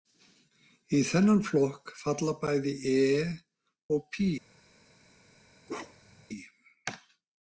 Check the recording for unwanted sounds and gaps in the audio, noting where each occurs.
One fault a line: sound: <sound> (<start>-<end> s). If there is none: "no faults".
sound: bark (5.7-6.3 s)